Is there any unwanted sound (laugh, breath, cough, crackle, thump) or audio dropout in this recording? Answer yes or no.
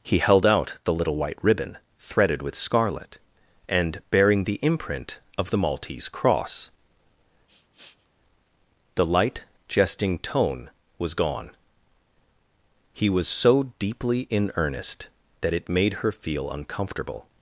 yes